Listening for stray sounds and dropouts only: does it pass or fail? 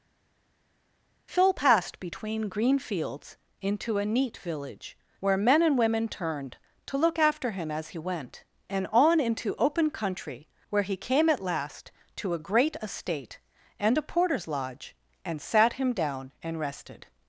pass